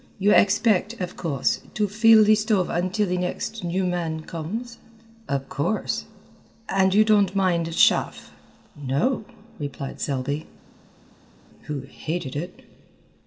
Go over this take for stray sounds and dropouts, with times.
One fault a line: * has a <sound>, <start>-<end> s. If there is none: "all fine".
all fine